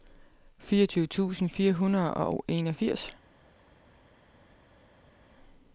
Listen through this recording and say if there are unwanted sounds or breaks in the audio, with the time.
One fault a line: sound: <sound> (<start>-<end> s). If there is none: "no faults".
no faults